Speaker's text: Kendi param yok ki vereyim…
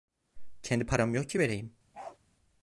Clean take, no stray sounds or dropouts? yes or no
no